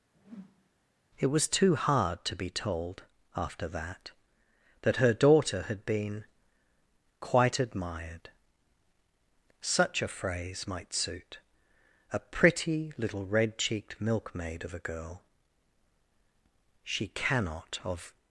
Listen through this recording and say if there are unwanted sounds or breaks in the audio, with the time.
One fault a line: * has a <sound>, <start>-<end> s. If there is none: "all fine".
* has a whoosh, 0.1-0.7 s